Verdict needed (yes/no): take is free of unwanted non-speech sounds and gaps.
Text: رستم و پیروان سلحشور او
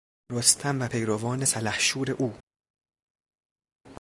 yes